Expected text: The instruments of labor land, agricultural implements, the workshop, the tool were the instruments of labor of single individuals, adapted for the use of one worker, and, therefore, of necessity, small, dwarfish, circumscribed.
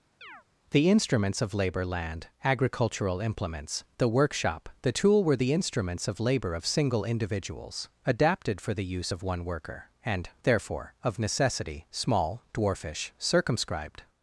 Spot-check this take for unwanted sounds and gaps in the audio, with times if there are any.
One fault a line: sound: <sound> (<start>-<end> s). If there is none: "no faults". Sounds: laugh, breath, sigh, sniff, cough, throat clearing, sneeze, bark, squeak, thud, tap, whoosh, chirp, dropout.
sound: chirp (0.2-0.4 s)